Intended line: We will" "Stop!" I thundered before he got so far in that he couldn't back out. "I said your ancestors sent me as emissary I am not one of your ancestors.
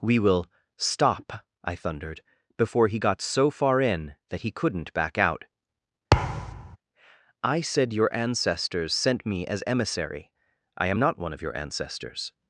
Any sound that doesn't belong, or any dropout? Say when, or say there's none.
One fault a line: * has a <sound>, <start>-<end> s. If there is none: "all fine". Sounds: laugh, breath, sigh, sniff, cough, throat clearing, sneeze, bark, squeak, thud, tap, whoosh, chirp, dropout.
* has a thud, 6.1-6.8 s